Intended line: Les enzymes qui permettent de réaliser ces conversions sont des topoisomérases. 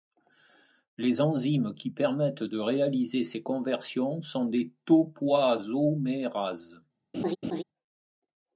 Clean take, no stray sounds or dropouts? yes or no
no